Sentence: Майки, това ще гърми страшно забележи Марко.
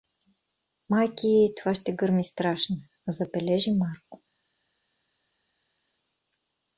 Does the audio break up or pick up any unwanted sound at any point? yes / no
no